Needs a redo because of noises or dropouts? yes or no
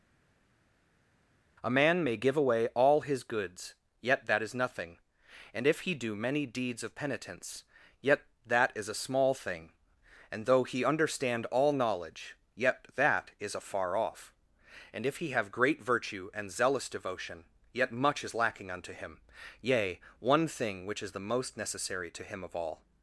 no